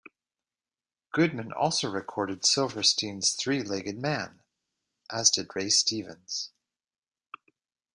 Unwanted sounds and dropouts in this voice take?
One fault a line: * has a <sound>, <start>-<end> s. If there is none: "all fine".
all fine